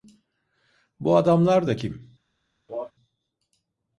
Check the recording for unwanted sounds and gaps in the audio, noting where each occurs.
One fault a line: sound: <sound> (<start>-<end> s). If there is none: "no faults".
sound: cough (2.7-2.9 s)